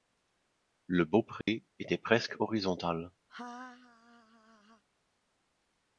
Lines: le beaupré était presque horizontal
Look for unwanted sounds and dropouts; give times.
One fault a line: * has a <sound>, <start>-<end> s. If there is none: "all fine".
* has a dropout, 1.4-1.5 s
* has a laugh, 3.3-4.8 s